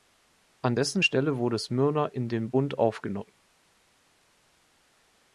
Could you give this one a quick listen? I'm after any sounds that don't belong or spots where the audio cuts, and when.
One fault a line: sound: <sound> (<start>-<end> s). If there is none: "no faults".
no faults